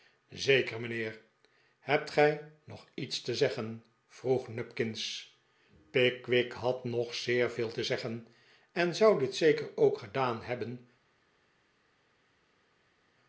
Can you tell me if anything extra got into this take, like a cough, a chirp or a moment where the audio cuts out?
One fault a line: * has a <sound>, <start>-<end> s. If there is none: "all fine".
all fine